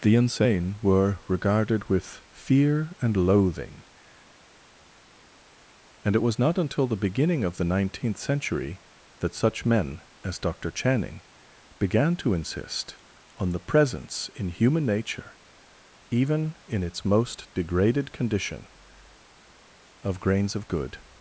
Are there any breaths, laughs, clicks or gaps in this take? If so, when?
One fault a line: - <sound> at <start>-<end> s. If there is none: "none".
none